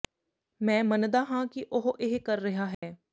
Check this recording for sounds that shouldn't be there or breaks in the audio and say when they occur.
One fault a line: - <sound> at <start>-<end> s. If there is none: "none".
- dropout at 2.7-2.8 s